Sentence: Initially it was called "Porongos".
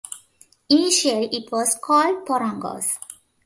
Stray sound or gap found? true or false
false